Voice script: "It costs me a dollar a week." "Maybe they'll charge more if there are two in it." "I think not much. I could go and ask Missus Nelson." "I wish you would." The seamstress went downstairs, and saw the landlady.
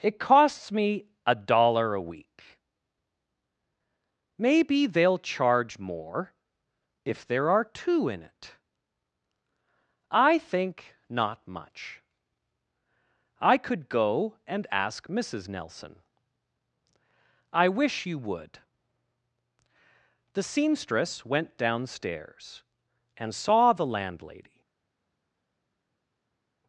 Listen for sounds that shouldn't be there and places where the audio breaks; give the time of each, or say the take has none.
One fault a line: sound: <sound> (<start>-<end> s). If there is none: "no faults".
no faults